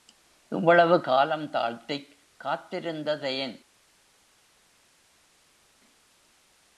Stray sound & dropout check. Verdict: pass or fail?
pass